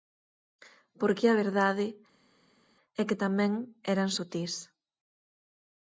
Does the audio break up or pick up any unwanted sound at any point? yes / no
no